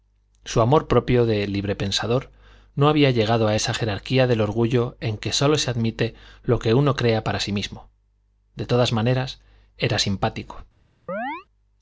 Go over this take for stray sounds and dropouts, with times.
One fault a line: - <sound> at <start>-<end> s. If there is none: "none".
- chirp at 11.1-11.5 s